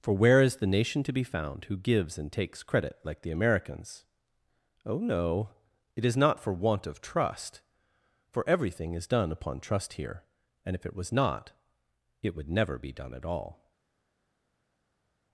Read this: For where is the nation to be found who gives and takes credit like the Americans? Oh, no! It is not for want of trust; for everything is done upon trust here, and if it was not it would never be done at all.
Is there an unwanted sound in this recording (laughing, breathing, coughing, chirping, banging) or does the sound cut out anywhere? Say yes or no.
no